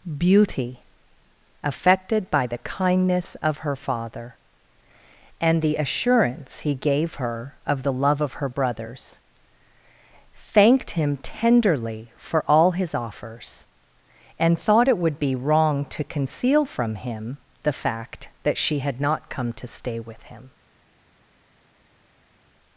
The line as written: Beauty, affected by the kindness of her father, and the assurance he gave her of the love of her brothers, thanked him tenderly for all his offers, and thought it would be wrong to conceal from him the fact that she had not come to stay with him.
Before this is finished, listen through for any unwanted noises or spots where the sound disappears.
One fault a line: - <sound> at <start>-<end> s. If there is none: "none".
none